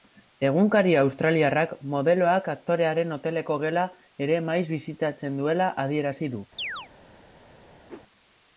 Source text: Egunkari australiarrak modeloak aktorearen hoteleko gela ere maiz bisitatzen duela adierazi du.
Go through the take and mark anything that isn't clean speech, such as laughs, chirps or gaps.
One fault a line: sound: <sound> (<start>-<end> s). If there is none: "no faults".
sound: chirp (6.6-6.9 s)
sound: whoosh (7.9-8.0 s)